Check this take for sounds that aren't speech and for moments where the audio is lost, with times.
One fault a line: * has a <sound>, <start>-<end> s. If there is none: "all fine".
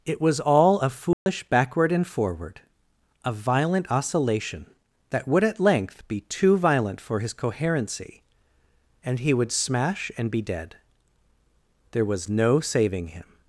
* has a dropout, 1.1-1.3 s